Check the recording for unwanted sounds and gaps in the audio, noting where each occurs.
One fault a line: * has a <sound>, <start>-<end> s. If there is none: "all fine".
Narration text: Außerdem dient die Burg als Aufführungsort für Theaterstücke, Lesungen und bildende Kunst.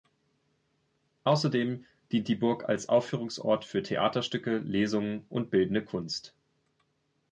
all fine